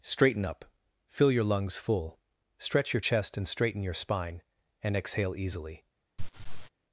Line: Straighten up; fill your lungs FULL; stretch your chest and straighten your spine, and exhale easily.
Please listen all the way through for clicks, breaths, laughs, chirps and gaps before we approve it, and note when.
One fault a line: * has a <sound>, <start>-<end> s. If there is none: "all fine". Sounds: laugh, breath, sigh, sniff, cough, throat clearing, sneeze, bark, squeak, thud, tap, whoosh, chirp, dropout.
* has a laugh, 6.2-6.7 s